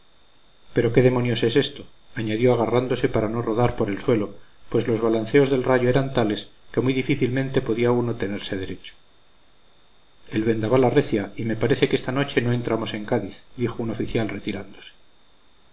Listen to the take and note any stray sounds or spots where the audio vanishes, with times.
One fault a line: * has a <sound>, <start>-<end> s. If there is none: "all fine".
all fine